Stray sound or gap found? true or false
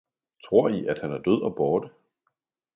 false